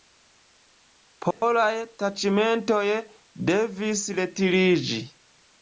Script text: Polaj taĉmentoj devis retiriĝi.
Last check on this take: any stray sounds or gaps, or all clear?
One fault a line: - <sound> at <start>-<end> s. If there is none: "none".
- dropout at 1.3-1.4 s